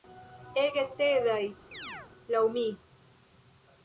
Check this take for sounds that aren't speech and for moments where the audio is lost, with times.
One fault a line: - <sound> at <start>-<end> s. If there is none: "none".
- chirp at 1.7-2.1 s